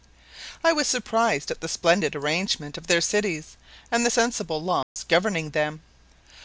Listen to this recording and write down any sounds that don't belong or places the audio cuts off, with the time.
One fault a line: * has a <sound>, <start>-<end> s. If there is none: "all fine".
* has a dropout, 4.8-5.0 s